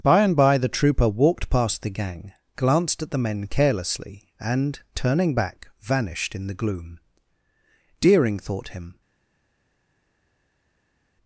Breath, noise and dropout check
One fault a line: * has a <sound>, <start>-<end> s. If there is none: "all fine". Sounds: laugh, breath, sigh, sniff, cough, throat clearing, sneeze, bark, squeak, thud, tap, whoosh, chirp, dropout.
all fine